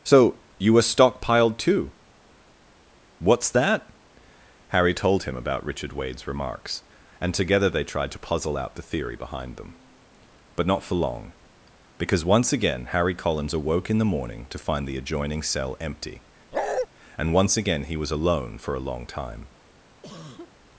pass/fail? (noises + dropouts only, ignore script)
fail